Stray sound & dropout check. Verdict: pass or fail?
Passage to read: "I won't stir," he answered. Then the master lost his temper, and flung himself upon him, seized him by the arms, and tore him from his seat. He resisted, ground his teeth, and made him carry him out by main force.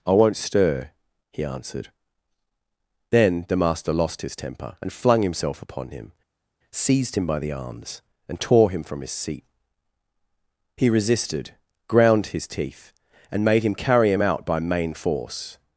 pass